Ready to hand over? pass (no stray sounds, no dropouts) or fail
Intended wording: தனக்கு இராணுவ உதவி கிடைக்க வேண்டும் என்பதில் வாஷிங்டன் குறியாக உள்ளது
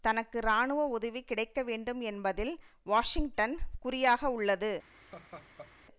fail